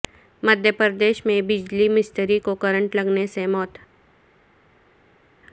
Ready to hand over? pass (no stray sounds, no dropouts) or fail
pass